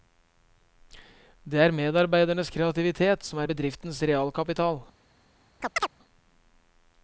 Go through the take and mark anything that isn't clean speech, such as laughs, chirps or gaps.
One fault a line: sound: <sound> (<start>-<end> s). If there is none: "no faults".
sound: chirp (5.6-5.9 s)